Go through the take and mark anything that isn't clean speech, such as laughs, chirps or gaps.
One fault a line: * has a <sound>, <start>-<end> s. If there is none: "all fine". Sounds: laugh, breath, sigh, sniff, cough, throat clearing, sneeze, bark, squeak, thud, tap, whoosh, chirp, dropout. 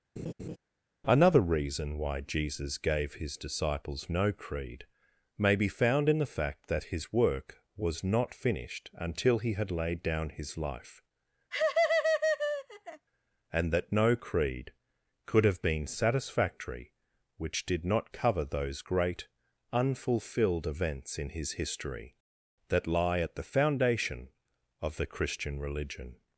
* has a laugh, 0.2-0.6 s
* has a laugh, 11.5-13.1 s